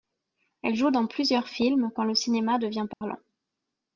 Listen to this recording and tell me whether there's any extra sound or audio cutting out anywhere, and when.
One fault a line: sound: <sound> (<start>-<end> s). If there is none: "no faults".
sound: dropout (2.9-3.0 s)